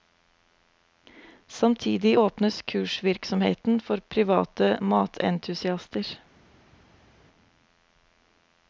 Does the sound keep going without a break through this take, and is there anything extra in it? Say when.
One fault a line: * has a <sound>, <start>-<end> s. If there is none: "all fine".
all fine